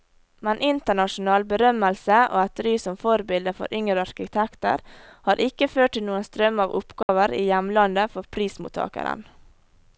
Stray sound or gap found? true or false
true